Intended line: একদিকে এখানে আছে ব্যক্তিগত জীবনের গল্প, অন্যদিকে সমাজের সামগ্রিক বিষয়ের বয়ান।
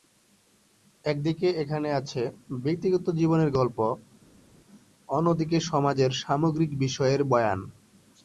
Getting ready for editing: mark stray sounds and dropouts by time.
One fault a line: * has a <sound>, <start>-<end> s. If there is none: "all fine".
all fine